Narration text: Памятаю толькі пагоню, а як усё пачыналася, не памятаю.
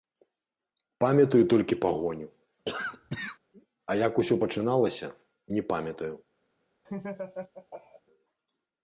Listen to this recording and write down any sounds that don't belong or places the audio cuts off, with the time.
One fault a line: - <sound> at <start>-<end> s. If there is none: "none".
- cough at 2.7-3.4 s
- laugh at 6.8-8.0 s